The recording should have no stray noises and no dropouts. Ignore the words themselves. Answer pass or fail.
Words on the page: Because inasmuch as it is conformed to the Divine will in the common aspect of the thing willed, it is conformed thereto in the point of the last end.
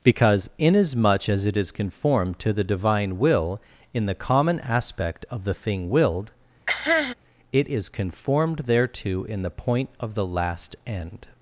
fail